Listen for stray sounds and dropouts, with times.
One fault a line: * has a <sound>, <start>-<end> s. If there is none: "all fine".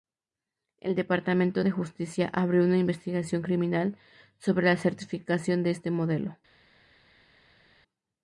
all fine